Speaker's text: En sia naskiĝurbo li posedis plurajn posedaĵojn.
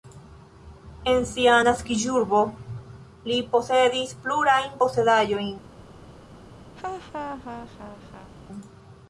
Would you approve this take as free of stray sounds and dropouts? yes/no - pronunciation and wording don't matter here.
no